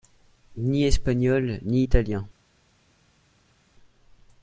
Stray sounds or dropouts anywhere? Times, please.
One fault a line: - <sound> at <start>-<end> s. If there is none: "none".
none